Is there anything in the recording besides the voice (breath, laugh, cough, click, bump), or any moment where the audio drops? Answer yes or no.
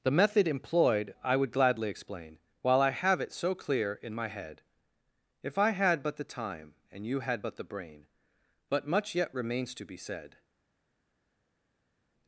no